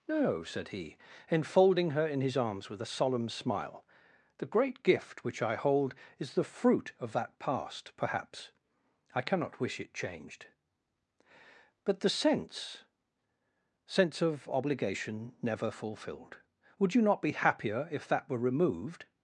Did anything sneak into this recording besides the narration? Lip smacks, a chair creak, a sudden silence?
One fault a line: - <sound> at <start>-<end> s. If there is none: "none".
none